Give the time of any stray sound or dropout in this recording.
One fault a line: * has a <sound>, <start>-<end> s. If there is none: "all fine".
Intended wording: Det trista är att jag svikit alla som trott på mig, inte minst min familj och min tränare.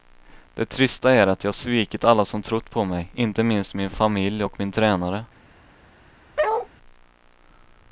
* has a bark, 6.4-6.7 s